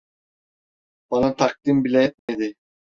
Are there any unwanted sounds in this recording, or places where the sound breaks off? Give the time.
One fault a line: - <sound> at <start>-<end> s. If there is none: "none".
- dropout at 2.2-2.3 s